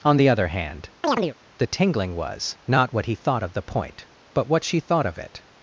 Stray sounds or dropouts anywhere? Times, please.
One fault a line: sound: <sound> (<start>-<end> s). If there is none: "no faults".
sound: chirp (1.0-1.3 s)